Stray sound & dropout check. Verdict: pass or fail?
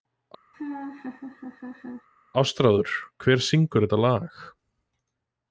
fail